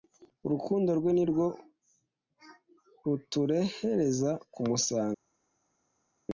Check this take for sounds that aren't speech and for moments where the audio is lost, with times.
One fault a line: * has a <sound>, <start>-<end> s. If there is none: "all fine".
all fine